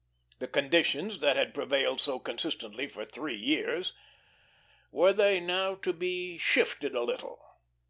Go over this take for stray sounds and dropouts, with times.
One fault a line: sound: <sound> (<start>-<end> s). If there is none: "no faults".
no faults